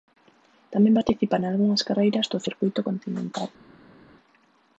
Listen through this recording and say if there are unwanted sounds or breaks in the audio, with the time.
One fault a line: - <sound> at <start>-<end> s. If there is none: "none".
none